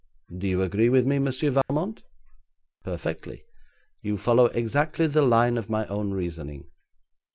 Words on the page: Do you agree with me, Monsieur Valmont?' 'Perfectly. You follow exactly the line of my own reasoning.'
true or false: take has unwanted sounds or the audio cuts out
true